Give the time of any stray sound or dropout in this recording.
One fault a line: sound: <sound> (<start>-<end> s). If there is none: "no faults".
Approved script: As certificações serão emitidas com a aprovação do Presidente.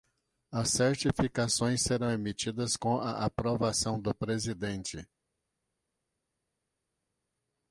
no faults